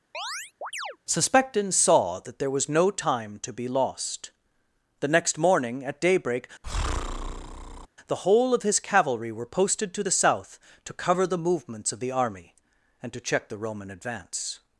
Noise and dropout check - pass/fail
fail